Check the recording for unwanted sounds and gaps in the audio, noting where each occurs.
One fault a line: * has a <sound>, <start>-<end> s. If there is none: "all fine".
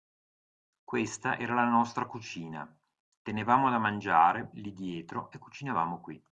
all fine